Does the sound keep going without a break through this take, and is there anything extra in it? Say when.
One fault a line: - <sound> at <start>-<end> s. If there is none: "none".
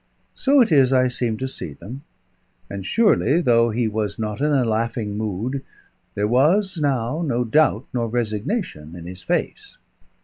none